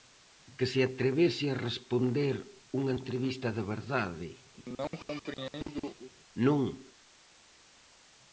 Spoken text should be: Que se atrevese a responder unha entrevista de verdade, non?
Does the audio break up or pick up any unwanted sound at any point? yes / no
yes